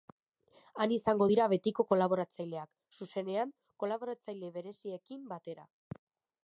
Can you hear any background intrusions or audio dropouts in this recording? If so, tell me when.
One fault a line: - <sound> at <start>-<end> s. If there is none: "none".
none